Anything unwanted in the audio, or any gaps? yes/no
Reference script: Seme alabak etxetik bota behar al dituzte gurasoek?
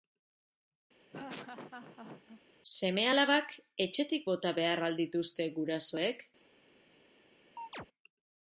yes